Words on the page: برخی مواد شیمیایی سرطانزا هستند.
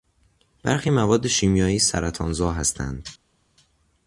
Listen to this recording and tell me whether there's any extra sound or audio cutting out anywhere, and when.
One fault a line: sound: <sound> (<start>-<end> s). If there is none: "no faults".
no faults